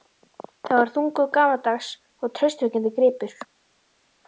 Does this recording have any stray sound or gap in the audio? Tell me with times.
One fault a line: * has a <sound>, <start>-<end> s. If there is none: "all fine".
all fine